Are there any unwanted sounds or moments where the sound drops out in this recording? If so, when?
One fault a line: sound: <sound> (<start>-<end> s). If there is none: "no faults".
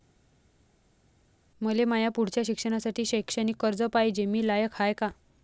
no faults